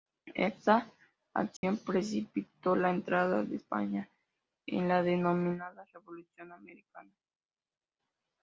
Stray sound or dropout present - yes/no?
yes